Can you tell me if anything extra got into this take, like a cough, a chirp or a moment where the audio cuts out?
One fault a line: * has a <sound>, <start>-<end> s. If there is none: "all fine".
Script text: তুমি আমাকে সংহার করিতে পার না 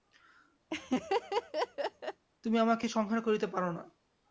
* has a laugh, 0.7-2.2 s